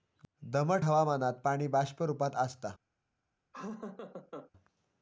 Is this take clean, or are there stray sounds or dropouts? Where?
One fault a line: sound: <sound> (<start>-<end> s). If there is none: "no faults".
sound: laugh (3.5-4.5 s)